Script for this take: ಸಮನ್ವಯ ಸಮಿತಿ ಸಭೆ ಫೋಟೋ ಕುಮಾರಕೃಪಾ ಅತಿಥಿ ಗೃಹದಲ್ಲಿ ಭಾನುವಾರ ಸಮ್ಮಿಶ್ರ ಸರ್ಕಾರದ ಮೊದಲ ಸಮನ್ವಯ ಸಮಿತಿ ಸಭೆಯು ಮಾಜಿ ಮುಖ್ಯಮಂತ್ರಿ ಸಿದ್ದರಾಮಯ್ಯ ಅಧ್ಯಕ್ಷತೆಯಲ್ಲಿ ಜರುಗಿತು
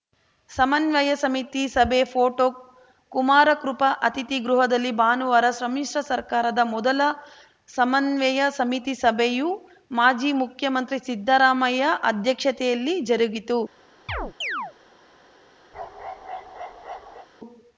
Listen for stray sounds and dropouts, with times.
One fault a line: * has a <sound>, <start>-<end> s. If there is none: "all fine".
* has a chirp, 14.1-14.7 s
* has a bark, 15.7-17.3 s